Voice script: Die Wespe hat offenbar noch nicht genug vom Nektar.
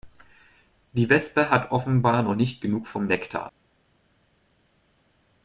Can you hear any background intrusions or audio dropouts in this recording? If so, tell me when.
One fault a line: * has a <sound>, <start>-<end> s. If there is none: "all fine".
all fine